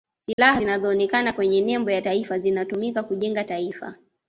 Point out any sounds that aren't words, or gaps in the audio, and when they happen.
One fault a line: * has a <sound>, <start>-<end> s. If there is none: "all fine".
* has a dropout, 0.3-0.4 s